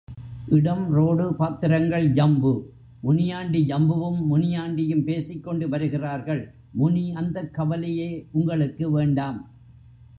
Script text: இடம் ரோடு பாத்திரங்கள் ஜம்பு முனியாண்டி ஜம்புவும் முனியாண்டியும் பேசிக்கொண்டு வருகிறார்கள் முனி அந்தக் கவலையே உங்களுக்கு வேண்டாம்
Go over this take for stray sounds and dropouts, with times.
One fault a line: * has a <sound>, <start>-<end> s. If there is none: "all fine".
all fine